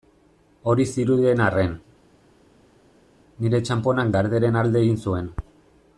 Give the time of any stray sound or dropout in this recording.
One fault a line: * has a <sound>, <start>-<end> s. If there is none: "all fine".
all fine